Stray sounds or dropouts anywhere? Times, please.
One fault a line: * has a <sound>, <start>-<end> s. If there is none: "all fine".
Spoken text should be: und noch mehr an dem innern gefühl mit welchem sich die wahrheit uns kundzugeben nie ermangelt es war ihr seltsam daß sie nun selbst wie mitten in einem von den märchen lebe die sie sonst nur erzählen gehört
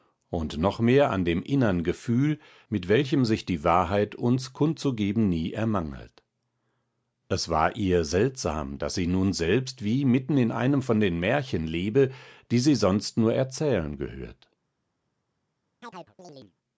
* has a chirp, 15.8-16.5 s